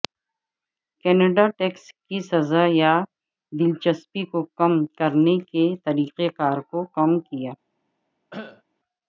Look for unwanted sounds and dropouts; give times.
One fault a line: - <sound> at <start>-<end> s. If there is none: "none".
- cough at 8.3-8.6 s